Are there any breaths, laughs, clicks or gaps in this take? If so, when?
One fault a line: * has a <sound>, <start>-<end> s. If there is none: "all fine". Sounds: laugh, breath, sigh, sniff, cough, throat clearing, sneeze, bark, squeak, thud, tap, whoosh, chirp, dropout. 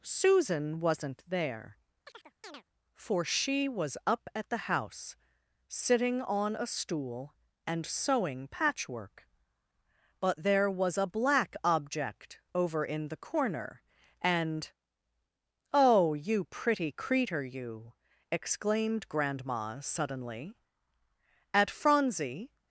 * has a chirp, 2.0-2.6 s